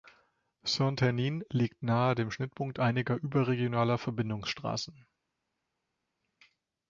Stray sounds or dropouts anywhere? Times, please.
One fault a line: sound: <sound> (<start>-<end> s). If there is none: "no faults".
no faults